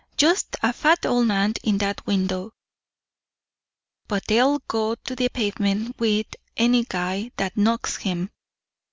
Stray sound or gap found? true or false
false